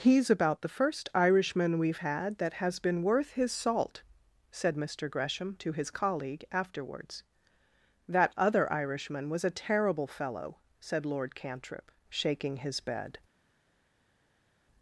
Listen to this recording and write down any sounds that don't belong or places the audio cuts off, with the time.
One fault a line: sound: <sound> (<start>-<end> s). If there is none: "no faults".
no faults